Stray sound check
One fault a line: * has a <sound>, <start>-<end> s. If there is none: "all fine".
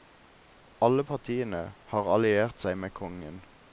all fine